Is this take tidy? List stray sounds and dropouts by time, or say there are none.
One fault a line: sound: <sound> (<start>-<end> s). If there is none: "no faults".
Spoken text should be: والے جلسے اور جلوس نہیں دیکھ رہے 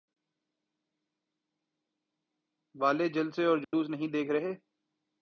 sound: dropout (3.6-3.7 s)